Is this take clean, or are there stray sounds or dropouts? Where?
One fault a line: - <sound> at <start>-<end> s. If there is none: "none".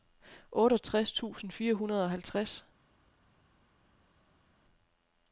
none